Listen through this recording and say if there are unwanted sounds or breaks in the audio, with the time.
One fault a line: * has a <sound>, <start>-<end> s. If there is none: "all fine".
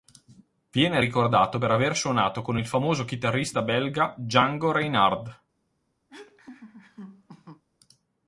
* has a laugh, 6.1-7.6 s